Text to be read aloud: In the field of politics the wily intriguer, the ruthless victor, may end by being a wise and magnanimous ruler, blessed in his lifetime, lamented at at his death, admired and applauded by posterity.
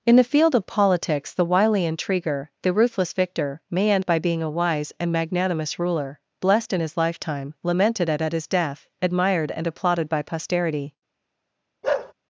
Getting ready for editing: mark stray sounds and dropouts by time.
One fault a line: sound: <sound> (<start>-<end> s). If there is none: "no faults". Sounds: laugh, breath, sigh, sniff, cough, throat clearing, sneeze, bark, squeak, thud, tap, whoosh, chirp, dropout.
sound: bark (11.8-12.1 s)